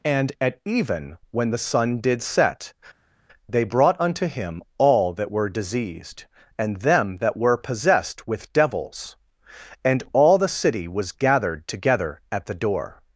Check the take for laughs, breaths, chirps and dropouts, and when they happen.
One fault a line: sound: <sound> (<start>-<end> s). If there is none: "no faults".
no faults